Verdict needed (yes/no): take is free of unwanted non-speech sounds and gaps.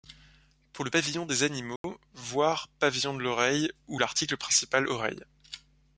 no